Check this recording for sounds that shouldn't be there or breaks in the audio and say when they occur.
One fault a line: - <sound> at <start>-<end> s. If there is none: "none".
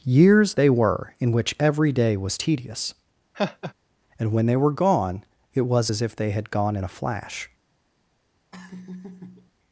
- laugh at 3.3-3.7 s
- laugh at 8.5-9.5 s